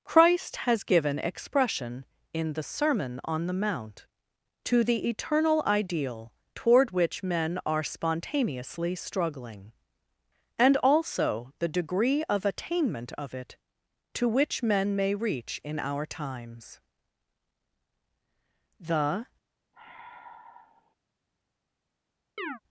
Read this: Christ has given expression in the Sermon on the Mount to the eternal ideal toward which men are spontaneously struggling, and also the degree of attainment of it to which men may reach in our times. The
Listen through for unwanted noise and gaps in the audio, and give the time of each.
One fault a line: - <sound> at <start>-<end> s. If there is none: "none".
- sigh at 19.7-21.0 s
- chirp at 22.4-22.6 s